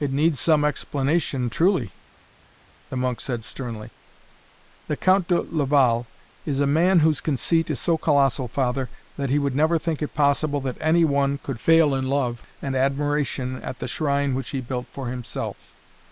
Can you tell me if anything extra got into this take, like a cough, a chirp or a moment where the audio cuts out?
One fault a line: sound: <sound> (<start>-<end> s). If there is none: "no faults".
no faults